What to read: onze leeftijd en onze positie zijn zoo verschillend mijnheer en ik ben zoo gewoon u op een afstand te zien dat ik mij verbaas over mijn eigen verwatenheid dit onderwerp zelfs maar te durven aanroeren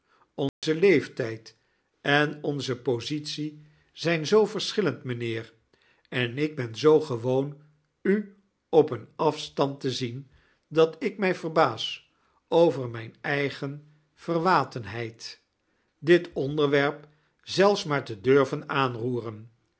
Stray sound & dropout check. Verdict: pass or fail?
fail